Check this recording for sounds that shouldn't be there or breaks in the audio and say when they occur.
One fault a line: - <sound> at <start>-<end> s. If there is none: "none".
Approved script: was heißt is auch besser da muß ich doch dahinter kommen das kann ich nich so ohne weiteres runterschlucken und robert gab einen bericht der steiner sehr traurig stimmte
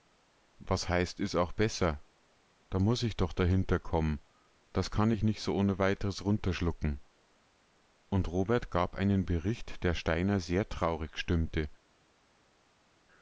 none